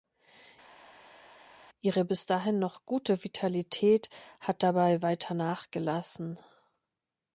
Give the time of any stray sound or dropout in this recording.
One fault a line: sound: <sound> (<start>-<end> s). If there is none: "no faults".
no faults